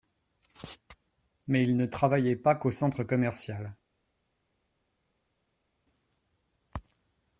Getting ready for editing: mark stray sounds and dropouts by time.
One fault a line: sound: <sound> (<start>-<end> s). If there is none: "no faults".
no faults